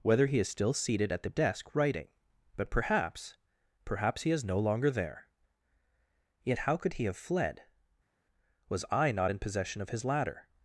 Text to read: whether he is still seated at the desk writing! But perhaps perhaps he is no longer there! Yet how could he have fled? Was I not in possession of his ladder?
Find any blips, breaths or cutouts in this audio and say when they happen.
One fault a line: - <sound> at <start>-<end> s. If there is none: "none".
none